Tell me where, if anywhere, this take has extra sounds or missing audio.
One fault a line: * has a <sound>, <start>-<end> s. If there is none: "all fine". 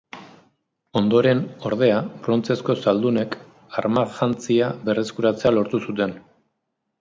all fine